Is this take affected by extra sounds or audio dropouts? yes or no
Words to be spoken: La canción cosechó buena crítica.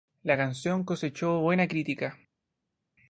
no